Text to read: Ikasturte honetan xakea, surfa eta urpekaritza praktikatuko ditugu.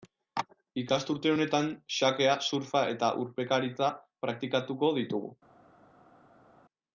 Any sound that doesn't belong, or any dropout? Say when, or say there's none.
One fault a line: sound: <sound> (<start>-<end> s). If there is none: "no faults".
no faults